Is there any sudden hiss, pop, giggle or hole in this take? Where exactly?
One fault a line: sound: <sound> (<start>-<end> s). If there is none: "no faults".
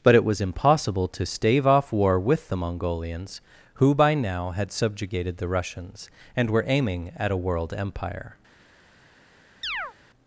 sound: chirp (9.6-9.9 s)